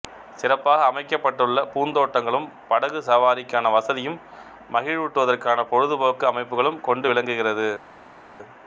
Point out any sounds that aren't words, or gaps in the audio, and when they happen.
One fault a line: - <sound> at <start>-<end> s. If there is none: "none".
none